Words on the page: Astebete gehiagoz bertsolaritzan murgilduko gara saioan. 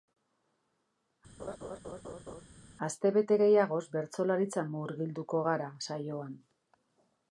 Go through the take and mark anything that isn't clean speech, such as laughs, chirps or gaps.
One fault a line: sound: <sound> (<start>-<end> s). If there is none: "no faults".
sound: laugh (1.4-2.4 s)